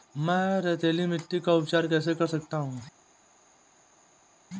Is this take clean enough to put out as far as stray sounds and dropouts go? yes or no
yes